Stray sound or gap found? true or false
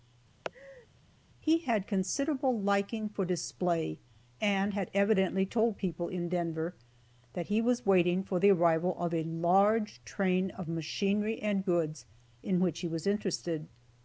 true